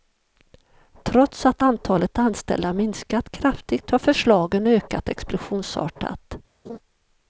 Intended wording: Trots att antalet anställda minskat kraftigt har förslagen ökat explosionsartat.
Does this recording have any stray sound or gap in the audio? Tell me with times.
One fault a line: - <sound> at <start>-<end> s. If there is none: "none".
- laugh at 6.6-6.8 s